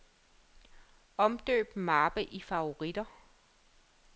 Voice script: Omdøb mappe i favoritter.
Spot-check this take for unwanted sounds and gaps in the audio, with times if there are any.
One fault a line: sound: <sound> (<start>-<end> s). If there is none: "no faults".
no faults